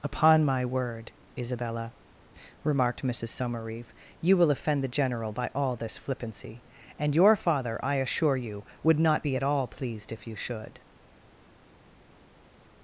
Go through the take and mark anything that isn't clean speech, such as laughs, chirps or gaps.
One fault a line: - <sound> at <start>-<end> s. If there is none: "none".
none